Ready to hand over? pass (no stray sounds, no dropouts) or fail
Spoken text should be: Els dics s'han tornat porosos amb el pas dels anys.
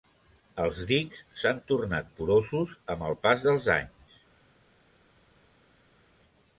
pass